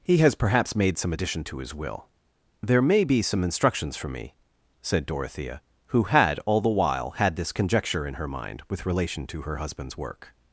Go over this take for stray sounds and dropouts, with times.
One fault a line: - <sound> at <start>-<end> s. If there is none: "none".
none